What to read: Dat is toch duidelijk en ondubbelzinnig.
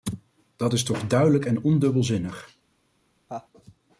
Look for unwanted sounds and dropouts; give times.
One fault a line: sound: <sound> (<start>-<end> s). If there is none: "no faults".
sound: laugh (3.3-3.5 s)